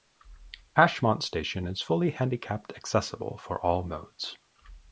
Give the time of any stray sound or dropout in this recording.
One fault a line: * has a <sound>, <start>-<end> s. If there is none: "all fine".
all fine